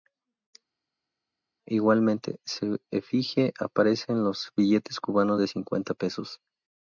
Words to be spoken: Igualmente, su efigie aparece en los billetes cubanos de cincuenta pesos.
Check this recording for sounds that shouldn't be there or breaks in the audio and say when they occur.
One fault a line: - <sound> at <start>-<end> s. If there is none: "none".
none